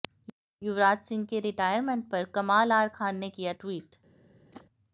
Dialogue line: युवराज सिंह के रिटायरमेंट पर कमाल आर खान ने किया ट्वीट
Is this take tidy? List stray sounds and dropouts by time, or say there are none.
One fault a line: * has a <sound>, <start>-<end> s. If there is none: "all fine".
* has a whoosh, 4.5-4.7 s